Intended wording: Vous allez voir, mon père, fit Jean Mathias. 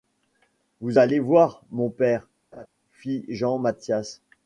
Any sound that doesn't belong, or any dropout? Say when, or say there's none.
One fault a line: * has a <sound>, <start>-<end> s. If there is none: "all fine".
* has a laugh, 2.5-2.7 s